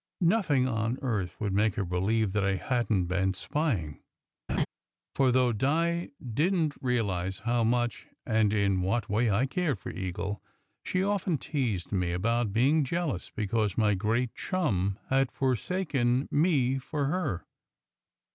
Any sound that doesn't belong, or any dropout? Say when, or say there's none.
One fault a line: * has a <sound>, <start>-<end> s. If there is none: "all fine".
* has a laugh, 4.5-4.7 s